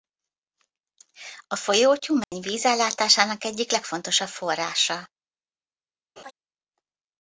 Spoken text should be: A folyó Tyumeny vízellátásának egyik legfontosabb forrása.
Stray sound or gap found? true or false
true